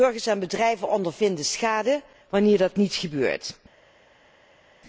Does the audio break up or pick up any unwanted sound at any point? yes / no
no